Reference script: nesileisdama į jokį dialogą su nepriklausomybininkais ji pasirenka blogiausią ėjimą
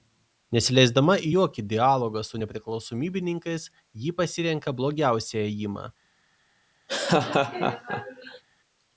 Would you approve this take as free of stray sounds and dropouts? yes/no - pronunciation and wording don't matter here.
no